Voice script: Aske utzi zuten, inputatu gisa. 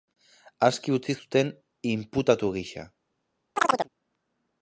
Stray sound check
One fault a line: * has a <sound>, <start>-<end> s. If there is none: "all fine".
* has a chirp, 3.6-3.9 s